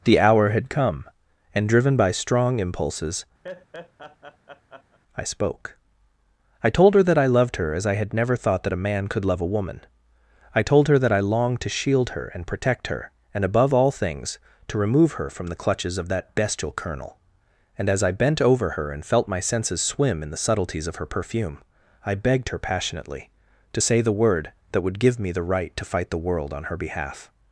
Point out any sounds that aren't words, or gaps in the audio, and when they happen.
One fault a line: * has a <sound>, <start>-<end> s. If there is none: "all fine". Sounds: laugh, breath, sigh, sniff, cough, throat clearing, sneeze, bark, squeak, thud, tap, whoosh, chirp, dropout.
* has a laugh, 3.4-5.0 s